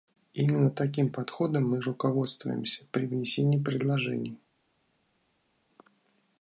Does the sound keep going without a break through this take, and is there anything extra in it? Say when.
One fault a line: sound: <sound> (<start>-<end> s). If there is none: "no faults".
no faults